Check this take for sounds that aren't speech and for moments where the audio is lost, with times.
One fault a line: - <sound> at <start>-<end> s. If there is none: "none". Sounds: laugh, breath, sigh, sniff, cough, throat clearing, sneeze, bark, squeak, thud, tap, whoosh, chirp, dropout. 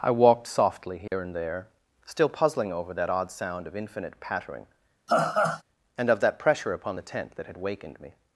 - dropout at 1.1-1.1 s
- laugh at 5.1-5.6 s